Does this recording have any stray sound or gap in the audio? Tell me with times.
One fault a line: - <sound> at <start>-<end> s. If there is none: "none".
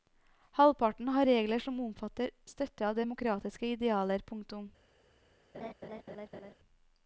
- laugh at 5.5-6.5 s